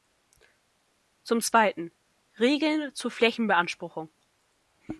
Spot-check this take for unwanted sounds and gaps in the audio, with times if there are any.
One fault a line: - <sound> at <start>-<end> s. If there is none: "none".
none